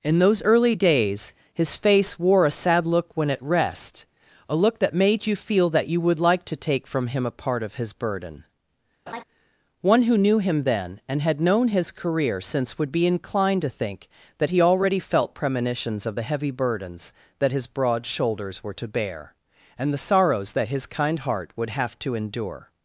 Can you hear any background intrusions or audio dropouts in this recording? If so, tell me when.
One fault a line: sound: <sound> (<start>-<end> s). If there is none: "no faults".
sound: laugh (9.1-9.2 s)